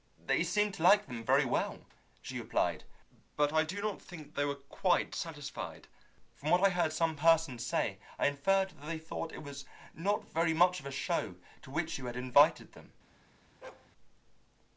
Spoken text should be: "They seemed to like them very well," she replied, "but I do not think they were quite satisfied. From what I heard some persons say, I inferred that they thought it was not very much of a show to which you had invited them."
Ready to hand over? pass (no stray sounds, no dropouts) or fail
fail